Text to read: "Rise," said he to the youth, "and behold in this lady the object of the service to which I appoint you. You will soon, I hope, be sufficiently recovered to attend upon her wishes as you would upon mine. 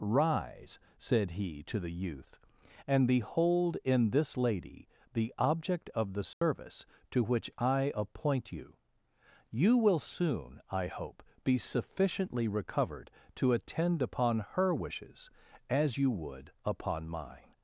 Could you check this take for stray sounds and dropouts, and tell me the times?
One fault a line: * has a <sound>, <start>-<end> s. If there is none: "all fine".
* has a dropout, 6.3-6.4 s